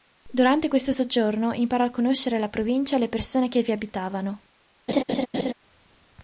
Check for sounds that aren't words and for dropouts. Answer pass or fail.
fail